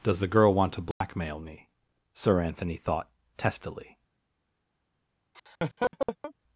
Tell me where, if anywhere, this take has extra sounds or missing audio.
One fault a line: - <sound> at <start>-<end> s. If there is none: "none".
- dropout at 0.9-1.0 s
- laugh at 5.3-6.3 s